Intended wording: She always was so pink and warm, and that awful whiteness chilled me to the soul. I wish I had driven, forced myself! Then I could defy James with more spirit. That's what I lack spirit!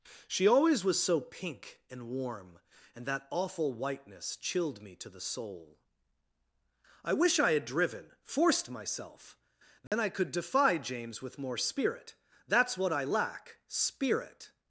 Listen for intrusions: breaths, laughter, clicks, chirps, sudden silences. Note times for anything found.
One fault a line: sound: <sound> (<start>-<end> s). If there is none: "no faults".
sound: dropout (9.9-9.9 s)